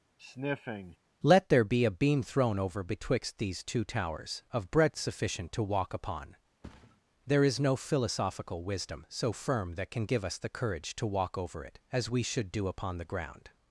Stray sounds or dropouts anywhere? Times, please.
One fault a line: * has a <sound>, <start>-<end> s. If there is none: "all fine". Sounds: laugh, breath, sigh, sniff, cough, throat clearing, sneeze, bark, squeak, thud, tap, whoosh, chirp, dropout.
* has a sniff, 0.2-1.0 s
* has a thud, 6.6-7.0 s